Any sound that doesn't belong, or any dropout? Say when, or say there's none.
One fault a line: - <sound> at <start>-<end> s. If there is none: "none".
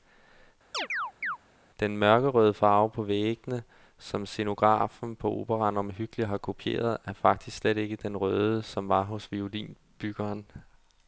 - chirp at 0.7-1.4 s